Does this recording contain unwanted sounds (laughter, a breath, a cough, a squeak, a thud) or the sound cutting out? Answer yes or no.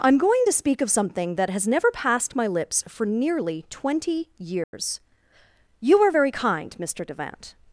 yes